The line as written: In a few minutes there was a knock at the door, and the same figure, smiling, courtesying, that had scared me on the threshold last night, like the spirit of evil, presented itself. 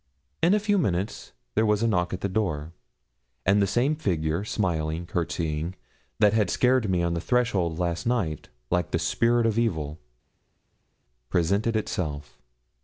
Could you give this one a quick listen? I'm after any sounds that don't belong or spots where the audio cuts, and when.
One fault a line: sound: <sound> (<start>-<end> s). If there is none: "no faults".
no faults